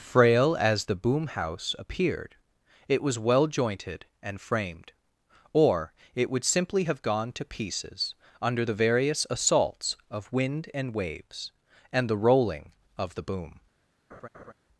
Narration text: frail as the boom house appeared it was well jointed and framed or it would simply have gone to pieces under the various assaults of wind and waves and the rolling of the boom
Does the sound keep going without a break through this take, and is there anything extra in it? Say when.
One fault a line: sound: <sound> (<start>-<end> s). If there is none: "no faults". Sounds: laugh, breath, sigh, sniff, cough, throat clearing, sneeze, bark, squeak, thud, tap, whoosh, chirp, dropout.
sound: laugh (14.1-14.5 s)